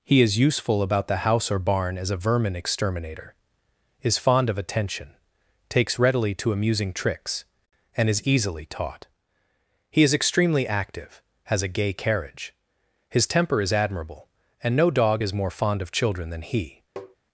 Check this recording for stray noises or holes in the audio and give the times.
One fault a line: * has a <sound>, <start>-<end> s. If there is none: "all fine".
* has a tap, 17.0-17.2 s